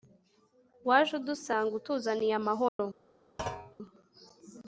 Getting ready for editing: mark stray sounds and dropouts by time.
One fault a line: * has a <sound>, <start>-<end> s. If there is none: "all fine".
* has a dropout, 2.7-2.8 s
* has a thud, 3.4-3.8 s